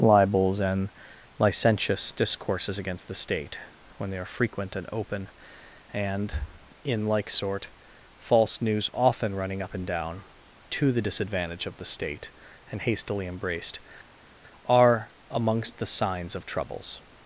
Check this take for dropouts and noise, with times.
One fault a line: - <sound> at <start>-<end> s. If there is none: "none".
none